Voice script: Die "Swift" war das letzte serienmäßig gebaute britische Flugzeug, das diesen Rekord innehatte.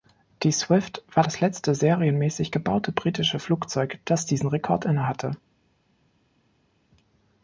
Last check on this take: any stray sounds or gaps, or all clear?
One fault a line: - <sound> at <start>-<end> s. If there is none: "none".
none